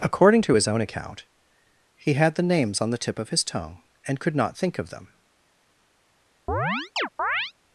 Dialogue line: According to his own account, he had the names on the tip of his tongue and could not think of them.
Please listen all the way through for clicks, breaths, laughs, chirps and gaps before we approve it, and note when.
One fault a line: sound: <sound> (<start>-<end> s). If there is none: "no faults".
sound: chirp (6.5-7.5 s)